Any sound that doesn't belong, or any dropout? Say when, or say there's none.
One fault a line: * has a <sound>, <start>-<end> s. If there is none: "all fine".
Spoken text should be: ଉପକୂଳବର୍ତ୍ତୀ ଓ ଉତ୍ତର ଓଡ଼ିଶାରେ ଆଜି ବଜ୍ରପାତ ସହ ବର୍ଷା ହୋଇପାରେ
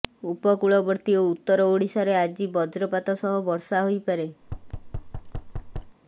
* has a thud, 4.4-6.0 s